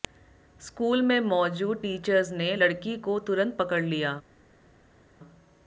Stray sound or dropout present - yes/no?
no